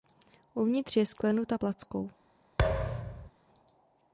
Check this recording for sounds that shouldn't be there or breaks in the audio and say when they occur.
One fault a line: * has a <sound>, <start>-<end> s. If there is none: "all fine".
* has a thud, 2.6-3.3 s